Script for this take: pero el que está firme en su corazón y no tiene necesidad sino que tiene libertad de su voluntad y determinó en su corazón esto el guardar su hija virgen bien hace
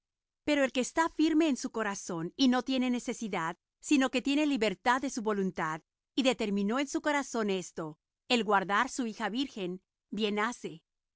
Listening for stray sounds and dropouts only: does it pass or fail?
pass